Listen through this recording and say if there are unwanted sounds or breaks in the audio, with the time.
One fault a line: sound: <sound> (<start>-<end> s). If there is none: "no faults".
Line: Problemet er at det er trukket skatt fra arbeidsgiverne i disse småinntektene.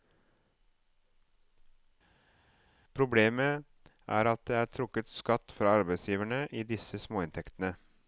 no faults